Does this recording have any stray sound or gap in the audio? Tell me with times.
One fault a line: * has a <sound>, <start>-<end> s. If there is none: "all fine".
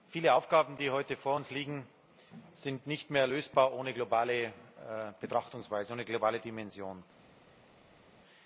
all fine